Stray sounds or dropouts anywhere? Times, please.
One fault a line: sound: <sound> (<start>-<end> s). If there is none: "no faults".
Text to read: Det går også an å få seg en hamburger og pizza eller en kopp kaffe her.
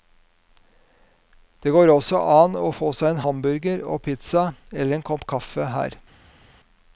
no faults